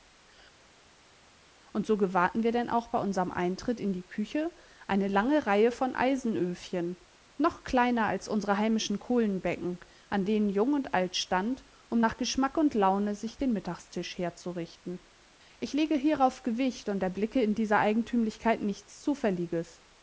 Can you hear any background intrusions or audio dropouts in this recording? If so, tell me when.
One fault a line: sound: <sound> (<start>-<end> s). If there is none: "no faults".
no faults